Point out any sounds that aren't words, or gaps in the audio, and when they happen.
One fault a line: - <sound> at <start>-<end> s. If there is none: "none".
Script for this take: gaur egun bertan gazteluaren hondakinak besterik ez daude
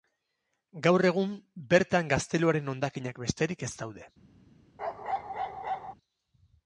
- bark at 4.8-5.9 s